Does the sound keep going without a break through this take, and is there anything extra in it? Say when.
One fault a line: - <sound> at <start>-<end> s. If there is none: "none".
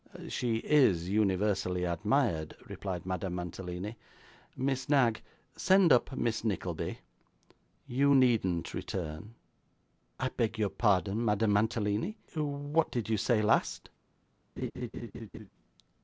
- laugh at 14.6-15.5 s